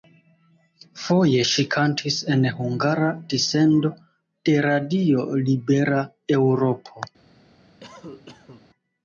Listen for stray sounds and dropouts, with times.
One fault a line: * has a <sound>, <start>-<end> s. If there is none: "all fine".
* has a cough, 7.8-8.7 s